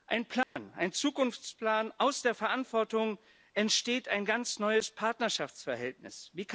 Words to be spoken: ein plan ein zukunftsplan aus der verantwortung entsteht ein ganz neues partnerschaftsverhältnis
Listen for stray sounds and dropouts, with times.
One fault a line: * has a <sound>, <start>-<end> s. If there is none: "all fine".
* has a dropout, 0.4-0.6 s